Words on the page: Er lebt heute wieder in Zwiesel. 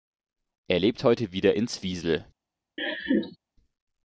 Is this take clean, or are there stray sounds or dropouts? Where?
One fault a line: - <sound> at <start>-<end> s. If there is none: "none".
- laugh at 2.8-3.4 s